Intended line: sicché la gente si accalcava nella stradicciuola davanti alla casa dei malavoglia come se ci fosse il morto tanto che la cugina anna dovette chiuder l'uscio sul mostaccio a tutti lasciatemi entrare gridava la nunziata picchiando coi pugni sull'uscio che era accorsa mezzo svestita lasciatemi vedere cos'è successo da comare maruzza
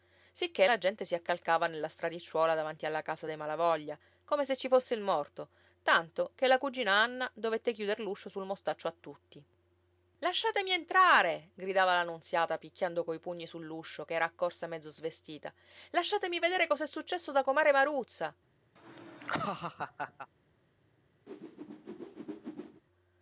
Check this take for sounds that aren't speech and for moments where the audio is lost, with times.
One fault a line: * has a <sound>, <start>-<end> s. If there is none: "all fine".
* has a laugh, 18.8-20.3 s
* has a whoosh, 21.3-22.8 s